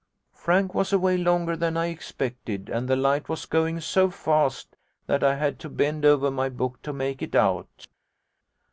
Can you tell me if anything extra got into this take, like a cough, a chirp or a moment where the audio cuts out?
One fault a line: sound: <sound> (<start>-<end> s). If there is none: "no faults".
no faults